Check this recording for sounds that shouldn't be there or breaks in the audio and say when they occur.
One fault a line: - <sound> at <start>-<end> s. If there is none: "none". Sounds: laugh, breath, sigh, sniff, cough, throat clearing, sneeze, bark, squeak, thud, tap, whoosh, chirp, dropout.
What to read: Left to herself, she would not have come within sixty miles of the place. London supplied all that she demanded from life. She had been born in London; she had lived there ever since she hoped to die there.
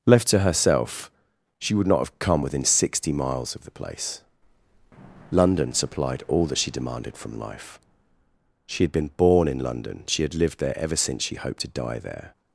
none